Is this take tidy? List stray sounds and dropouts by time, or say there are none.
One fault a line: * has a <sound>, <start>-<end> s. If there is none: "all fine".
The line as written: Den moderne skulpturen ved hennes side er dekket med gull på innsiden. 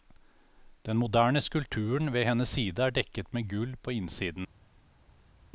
all fine